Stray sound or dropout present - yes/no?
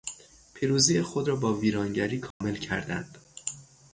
yes